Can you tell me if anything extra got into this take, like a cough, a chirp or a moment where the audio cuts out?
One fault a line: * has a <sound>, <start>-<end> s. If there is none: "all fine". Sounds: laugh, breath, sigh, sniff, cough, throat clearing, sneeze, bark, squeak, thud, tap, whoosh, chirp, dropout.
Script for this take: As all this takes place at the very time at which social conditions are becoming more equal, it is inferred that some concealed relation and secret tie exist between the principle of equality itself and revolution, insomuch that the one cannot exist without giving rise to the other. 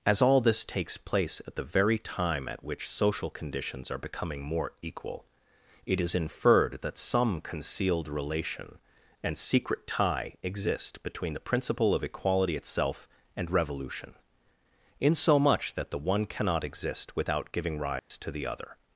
* has a dropout, 18.0-18.1 s